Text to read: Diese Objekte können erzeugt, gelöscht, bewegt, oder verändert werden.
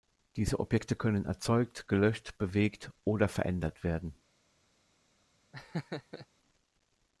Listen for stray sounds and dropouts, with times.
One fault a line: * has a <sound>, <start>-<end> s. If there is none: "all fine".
* has a laugh, 5.5-6.3 s